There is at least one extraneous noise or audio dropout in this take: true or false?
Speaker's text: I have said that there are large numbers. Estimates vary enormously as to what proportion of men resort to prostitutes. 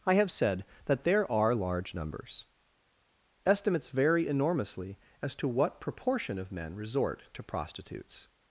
false